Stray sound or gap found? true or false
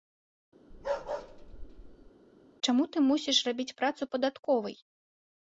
true